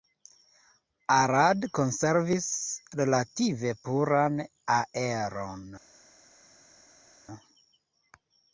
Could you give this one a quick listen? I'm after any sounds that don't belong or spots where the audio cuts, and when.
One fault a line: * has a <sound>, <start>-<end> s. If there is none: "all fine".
all fine